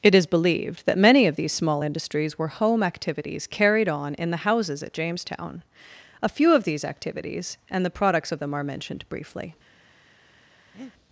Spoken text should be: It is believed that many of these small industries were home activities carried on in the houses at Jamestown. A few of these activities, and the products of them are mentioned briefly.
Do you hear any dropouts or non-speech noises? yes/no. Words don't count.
yes